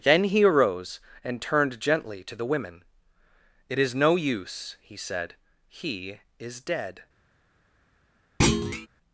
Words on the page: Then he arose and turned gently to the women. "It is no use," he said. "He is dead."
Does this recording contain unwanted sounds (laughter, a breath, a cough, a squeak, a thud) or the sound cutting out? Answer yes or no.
yes